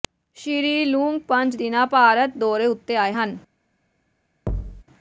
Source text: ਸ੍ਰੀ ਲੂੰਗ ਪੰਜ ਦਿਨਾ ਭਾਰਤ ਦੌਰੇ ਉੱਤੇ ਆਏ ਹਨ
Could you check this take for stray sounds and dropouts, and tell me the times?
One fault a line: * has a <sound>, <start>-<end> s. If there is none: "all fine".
* has a thud, 4.5-4.8 s